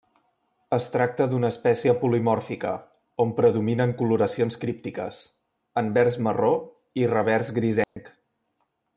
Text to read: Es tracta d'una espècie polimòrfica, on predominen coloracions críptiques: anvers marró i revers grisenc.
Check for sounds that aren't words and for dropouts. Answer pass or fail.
fail